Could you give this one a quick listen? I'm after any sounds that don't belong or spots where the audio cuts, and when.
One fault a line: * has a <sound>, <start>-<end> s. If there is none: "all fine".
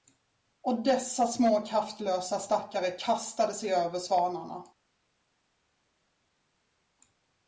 all fine